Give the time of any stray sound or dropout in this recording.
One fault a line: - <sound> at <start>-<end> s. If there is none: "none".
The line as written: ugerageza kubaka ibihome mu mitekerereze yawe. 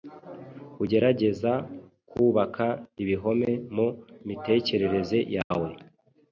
- dropout at 5.4-5.5 s